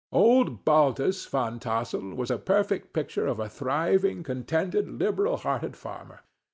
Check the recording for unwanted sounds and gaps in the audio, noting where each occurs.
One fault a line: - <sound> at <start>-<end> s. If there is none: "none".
none